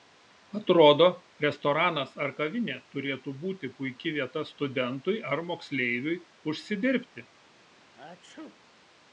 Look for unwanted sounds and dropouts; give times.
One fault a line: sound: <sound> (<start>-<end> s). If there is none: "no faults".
sound: sneeze (7.9-8.6 s)